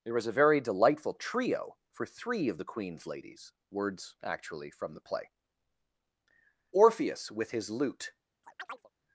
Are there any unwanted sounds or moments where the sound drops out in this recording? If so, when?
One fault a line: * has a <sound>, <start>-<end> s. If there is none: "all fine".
* has a chirp, 8.4-8.9 s